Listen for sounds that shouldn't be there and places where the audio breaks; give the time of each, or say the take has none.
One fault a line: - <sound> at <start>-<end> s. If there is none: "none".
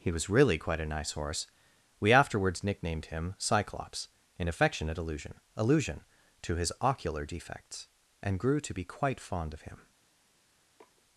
- sniff at 10.8-11.0 s